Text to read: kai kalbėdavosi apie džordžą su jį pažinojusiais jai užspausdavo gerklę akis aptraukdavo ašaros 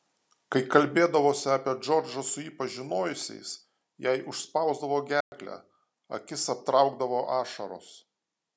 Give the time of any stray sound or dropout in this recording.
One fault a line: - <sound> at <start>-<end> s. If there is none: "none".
- dropout at 5.2-5.3 s